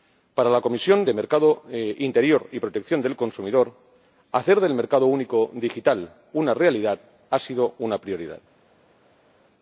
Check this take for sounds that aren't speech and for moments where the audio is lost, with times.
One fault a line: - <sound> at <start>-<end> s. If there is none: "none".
none